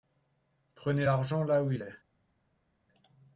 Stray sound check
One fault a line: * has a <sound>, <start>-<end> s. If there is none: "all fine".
all fine